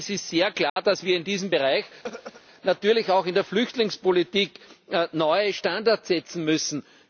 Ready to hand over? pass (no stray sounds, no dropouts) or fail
fail